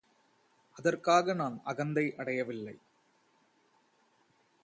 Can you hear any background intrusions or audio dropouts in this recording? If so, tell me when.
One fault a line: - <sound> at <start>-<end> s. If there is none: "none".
none